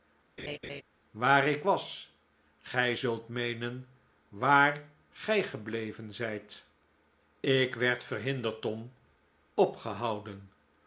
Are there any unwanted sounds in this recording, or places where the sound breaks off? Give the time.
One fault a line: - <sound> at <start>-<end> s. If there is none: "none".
- laugh at 0.4-0.8 s